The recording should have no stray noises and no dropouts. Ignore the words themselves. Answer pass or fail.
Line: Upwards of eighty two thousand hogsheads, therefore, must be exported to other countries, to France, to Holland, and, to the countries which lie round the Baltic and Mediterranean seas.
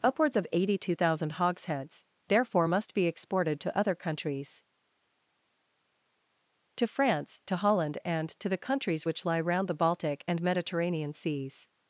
pass